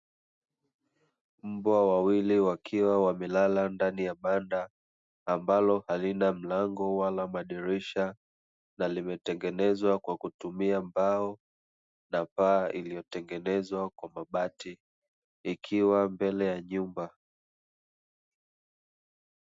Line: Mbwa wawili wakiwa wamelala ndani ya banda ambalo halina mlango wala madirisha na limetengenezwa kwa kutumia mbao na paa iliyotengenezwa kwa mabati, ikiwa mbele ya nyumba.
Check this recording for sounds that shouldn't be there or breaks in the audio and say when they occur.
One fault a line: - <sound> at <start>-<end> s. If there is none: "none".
none